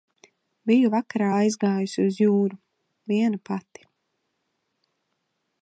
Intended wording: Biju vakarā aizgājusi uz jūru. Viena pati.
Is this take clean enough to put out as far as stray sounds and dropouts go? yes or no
yes